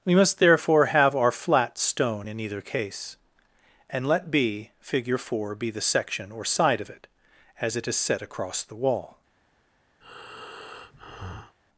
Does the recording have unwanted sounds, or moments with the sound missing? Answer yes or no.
yes